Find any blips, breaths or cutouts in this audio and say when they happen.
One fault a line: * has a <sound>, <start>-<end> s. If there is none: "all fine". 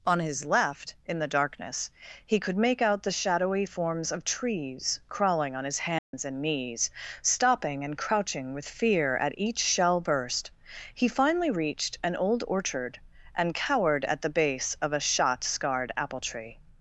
* has a dropout, 6.0-6.1 s